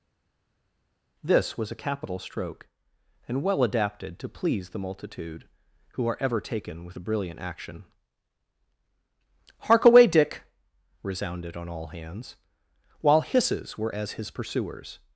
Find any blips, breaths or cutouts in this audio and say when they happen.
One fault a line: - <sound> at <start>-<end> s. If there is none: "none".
none